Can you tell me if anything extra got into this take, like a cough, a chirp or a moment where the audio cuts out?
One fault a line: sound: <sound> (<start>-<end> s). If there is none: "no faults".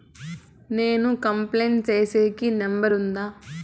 no faults